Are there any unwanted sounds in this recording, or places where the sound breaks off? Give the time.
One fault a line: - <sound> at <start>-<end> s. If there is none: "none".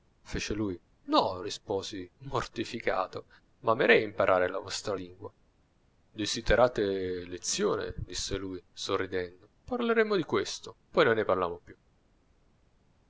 none